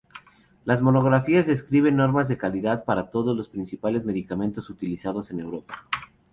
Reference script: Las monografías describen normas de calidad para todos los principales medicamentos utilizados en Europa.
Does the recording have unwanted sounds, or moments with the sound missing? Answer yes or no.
no